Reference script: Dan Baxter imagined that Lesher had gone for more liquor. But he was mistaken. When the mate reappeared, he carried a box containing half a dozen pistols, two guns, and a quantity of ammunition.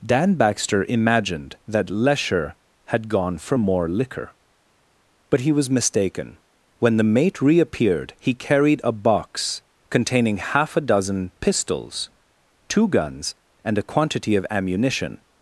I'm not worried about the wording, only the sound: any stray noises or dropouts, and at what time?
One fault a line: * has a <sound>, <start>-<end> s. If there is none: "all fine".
all fine